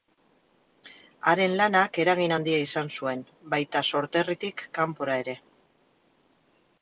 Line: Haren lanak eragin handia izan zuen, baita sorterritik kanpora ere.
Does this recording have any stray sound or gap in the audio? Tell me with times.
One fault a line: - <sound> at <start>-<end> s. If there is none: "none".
none